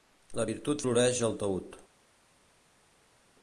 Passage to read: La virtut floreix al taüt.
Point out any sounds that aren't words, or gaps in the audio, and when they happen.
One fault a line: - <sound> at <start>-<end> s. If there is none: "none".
none